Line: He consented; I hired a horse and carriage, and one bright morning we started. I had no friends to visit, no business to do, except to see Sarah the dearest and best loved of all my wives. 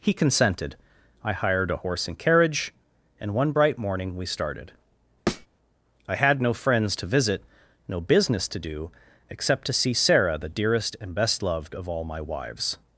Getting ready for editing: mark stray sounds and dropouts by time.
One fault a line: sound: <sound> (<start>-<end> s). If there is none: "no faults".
sound: thud (5.3-5.5 s)